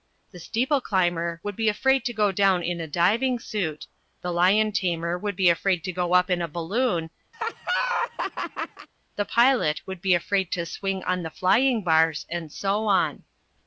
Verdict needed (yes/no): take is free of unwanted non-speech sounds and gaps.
no